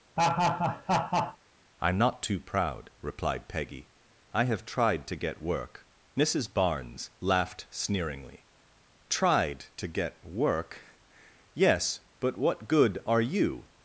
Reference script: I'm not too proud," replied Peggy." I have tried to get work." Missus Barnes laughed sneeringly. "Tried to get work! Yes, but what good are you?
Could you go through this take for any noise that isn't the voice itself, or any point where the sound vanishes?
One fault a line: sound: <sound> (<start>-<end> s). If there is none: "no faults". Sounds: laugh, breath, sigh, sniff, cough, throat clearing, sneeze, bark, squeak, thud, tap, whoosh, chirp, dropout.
sound: laugh (0.2-1.4 s)